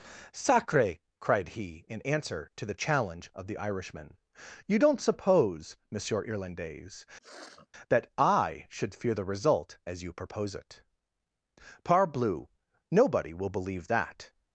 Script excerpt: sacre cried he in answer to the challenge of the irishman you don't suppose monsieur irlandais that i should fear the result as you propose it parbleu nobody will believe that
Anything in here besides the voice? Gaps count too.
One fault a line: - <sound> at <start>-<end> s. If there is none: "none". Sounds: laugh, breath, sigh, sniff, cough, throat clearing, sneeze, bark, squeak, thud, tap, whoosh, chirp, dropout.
- sniff at 7.2-7.7 s